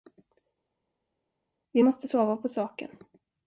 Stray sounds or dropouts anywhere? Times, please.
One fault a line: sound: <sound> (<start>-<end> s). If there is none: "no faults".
no faults